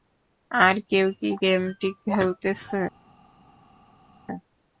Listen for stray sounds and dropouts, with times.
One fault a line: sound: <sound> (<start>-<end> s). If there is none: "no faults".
no faults